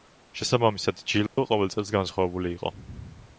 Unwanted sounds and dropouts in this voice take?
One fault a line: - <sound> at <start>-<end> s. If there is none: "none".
- dropout at 1.3-1.4 s